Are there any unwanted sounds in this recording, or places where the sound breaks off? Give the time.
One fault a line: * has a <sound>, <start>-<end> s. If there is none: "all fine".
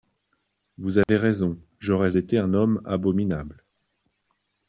* has a dropout, 1.0-1.1 s